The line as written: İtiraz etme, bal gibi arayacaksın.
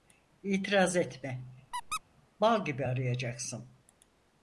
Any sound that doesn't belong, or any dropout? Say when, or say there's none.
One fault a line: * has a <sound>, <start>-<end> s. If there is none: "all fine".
* has a squeak, 1.7-2.0 s